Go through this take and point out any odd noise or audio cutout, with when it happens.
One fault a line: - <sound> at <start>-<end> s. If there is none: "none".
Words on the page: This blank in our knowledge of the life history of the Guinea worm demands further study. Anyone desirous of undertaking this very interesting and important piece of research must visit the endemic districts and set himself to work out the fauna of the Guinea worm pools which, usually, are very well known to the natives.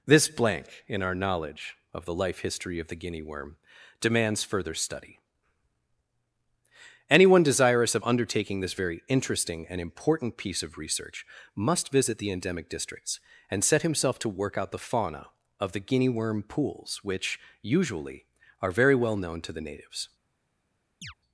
- chirp at 21.0-21.1 s